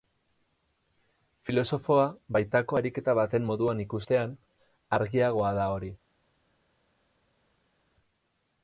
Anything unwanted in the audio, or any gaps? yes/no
no